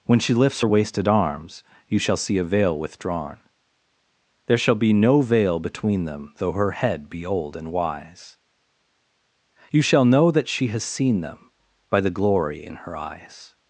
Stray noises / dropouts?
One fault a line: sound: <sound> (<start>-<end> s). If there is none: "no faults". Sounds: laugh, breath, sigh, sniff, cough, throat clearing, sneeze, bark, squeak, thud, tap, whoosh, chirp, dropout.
no faults